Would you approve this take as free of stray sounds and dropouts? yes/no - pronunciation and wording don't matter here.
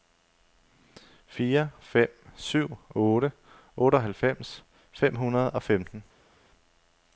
yes